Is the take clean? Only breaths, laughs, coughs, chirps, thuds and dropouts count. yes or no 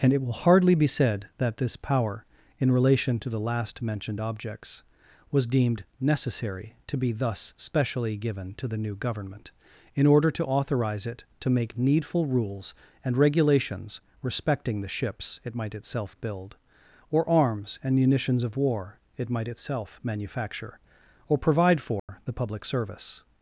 no